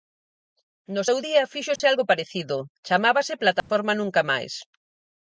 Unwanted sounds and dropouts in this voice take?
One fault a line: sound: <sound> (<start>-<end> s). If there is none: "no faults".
sound: dropout (1.8-1.8 s)
sound: dropout (3.6-3.7 s)